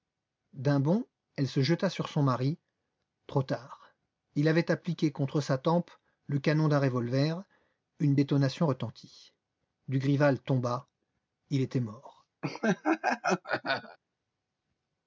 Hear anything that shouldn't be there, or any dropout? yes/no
yes